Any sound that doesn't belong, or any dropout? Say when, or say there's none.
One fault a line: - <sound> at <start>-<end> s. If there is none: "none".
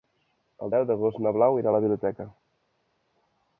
none